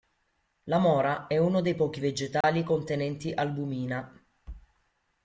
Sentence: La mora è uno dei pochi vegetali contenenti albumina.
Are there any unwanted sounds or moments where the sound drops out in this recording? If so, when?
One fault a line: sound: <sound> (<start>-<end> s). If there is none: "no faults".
sound: dropout (2.4-2.4 s)